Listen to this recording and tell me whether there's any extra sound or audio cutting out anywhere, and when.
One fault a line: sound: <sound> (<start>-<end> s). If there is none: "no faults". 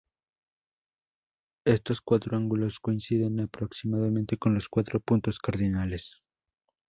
no faults